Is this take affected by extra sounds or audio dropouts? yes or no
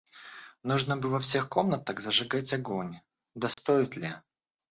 yes